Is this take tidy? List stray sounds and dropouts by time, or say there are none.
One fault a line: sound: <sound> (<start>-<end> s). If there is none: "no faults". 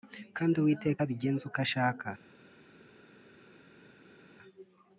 no faults